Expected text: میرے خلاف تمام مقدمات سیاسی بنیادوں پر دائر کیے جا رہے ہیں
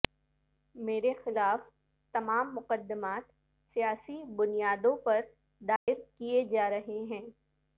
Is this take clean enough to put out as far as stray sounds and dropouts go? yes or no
no